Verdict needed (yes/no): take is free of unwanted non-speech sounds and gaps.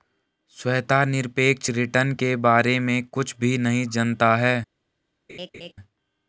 no